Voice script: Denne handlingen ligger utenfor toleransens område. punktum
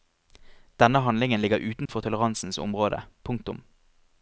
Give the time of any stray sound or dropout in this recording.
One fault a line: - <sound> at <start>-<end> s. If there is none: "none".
- dropout at 1.9-1.9 s